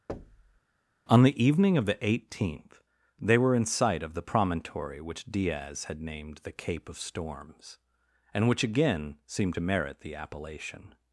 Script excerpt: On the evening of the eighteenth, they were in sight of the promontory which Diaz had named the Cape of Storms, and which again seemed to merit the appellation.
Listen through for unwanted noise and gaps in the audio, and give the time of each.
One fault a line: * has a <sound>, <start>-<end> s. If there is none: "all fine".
* has a thud, 0.1-0.6 s